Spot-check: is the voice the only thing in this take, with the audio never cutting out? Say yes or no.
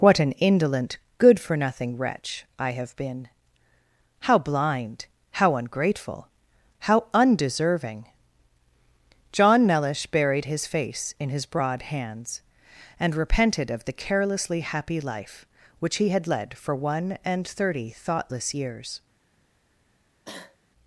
no